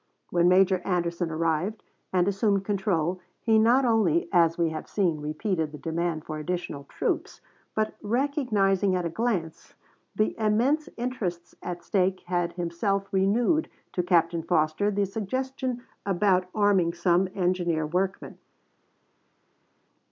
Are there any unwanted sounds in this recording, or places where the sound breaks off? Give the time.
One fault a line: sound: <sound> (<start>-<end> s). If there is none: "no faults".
no faults